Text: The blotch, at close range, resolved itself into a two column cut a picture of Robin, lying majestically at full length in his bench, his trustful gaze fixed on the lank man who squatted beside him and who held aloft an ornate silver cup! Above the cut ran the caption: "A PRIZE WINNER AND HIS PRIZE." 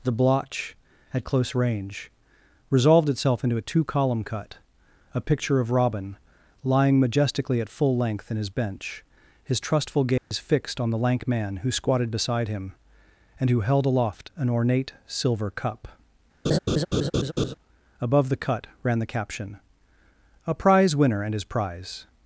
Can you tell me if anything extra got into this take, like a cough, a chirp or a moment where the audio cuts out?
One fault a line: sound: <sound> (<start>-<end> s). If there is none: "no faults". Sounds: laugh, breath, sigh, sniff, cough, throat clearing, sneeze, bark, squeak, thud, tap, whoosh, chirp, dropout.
sound: dropout (10.2-10.3 s)
sound: laugh (16.4-17.5 s)